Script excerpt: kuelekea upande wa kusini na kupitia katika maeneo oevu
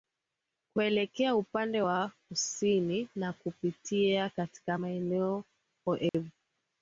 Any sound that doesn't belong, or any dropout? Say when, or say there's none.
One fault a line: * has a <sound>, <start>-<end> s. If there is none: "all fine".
* has a dropout, 6.1-6.1 s